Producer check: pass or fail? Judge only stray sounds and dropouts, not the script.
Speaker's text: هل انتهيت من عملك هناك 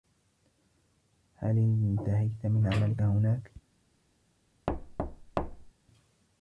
fail